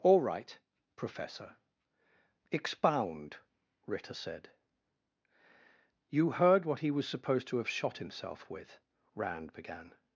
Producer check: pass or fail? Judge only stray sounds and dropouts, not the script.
pass